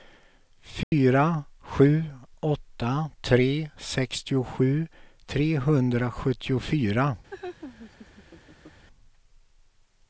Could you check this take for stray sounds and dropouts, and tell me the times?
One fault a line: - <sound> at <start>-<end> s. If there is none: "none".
- dropout at 0.8-0.9 s
- laugh at 7.3-8.8 s